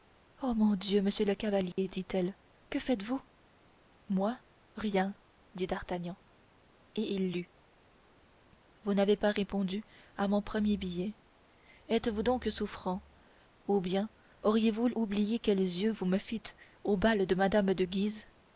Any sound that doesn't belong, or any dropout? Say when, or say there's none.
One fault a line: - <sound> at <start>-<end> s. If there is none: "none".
- dropout at 1.7-1.8 s